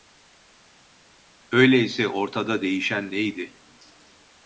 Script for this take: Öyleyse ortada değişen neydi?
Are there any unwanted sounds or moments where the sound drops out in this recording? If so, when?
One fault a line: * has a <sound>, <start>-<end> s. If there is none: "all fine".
all fine